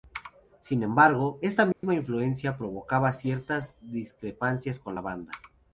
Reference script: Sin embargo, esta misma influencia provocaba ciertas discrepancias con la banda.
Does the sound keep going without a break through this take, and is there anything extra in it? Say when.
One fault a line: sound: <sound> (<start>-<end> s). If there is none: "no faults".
sound: dropout (1.7-1.8 s)